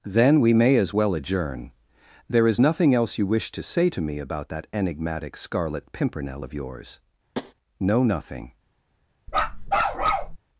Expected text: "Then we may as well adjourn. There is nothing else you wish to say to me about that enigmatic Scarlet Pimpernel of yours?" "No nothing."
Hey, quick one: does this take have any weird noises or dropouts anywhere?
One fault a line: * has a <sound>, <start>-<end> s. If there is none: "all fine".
* has a tap, 7.3-7.5 s
* has a bark, 9.3-10.4 s